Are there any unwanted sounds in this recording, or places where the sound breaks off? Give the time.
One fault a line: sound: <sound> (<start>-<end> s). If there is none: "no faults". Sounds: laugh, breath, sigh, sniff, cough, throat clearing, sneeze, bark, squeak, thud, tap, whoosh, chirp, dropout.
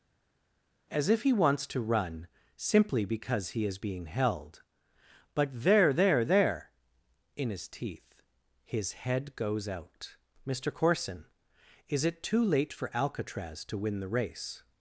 no faults